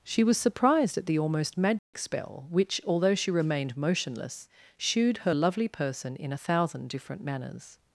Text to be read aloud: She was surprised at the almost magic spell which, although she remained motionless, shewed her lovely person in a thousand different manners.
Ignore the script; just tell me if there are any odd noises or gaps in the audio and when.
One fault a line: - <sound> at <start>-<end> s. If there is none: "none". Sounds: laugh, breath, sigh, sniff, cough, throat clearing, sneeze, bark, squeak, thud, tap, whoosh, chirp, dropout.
- dropout at 1.8-1.9 s